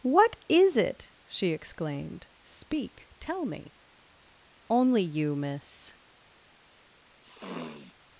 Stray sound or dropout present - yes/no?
yes